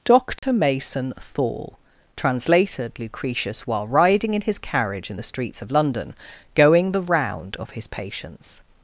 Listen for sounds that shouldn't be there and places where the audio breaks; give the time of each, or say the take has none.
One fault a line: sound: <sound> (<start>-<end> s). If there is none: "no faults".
sound: dropout (0.4-0.4 s)